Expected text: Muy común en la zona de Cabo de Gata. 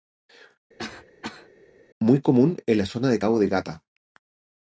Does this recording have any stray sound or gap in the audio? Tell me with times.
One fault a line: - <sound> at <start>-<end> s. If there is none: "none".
- cough at 0.8-1.5 s